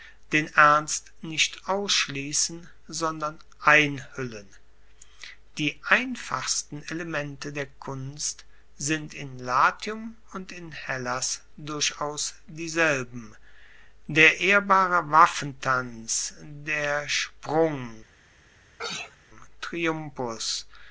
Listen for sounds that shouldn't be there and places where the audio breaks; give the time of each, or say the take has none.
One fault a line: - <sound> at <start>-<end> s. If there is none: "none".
- sneeze at 18.8-19.2 s